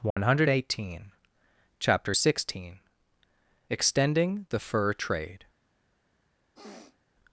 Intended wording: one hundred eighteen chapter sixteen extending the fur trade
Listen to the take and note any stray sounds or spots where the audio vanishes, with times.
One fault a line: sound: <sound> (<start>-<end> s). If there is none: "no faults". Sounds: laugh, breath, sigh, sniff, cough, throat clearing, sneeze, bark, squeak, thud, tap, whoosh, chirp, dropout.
sound: dropout (0.1-0.2 s)
sound: sniff (6.5-7.0 s)